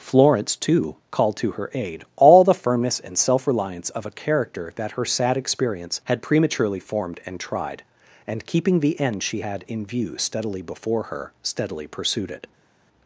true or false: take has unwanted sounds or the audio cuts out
false